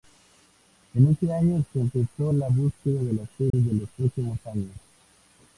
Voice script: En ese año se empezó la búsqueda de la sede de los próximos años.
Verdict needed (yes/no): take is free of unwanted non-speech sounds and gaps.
no